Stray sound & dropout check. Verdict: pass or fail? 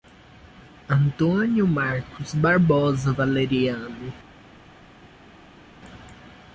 pass